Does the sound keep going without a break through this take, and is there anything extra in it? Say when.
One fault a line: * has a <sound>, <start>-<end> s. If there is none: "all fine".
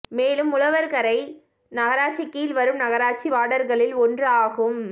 all fine